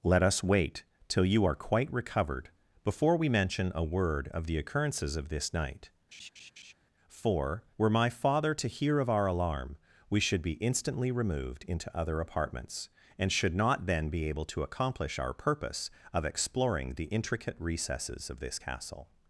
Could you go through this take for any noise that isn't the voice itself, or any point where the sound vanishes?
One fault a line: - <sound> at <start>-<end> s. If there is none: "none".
- laugh at 6.1-6.7 s